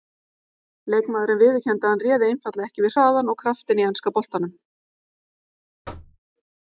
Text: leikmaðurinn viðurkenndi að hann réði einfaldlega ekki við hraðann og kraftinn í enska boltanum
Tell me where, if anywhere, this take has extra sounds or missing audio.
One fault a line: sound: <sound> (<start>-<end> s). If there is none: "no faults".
sound: thud (5.8-6.2 s)